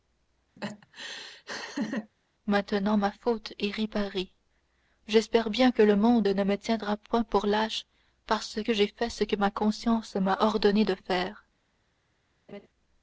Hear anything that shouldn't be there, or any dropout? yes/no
yes